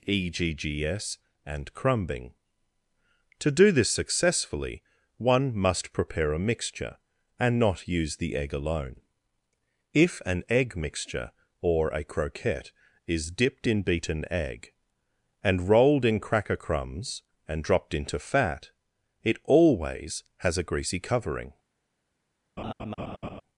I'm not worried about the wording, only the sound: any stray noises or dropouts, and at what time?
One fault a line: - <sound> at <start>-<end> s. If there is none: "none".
- laugh at 22.6-23.4 s